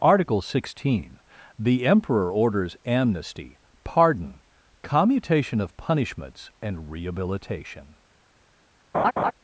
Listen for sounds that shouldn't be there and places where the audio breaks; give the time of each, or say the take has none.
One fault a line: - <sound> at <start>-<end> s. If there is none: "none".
- laugh at 8.9-9.3 s